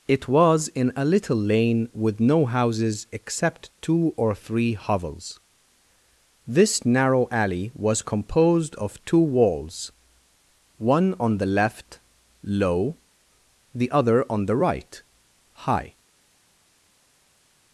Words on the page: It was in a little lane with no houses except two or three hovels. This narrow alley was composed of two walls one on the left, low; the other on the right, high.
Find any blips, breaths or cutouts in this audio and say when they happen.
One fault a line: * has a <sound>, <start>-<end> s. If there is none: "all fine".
all fine